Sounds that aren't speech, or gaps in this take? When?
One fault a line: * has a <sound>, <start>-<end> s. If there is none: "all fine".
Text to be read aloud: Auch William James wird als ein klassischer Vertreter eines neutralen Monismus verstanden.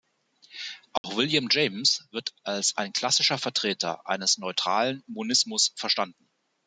* has a dropout, 1.0-1.0 s